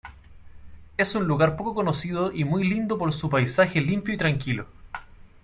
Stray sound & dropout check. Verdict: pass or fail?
pass